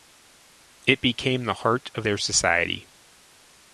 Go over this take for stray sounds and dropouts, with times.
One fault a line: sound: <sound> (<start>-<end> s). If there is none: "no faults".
no faults